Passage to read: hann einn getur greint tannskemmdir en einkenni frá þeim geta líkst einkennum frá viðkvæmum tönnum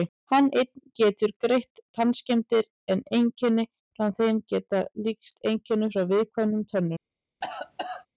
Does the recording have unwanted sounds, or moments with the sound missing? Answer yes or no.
yes